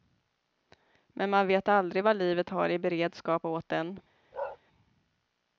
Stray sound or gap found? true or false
true